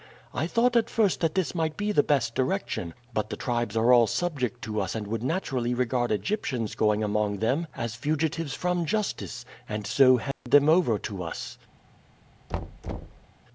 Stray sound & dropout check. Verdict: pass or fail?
fail